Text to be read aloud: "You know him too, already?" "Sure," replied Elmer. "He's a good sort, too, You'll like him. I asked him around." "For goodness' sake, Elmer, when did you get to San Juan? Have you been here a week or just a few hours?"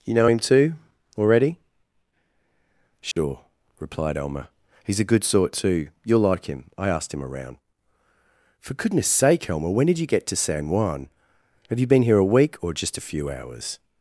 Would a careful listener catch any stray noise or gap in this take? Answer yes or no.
yes